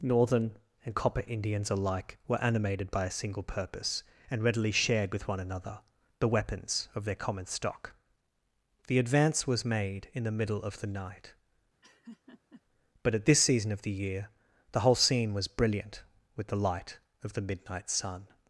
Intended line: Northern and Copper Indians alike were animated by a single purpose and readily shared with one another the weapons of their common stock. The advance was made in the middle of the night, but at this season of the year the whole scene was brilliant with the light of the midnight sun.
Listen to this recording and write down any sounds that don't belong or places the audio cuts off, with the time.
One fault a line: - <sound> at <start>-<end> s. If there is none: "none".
- laugh at 11.8-12.6 s